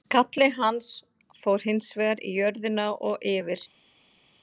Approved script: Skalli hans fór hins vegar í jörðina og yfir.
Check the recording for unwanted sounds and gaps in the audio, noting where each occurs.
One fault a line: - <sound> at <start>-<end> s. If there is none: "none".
none